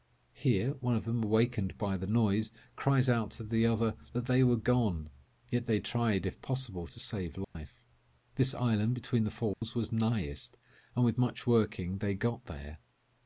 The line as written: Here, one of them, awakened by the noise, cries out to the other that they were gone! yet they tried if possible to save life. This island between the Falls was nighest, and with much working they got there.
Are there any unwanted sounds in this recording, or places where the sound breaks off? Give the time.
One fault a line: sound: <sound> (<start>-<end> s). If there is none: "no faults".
sound: dropout (7.4-7.6 s)
sound: dropout (9.5-9.6 s)